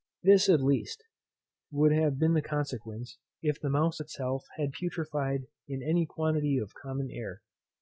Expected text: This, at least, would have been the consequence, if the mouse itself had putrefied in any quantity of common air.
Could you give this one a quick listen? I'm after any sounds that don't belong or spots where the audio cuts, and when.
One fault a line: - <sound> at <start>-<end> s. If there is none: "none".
none